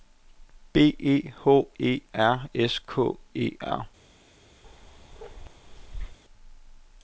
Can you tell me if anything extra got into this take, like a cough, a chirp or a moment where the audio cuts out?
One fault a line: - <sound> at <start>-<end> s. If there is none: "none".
- bark at 4.6-6.2 s